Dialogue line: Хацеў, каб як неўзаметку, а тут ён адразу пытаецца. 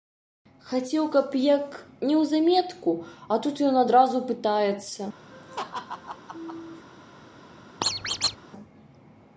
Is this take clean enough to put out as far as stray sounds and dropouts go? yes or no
no